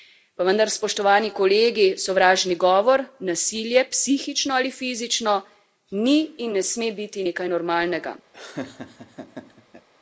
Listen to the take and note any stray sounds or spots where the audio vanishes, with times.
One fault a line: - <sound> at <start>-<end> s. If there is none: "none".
- laugh at 8.3-9.9 s